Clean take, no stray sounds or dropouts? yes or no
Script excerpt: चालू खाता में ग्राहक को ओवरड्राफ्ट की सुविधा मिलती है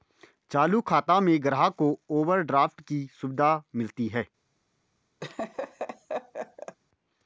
no